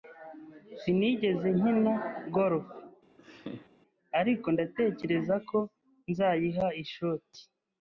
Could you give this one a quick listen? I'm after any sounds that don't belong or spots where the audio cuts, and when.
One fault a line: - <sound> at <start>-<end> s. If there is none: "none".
- laugh at 3.2-3.7 s